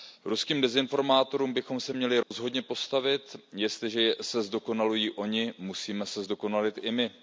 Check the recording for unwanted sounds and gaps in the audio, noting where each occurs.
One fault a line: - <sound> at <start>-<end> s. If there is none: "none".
- dropout at 2.2-2.3 s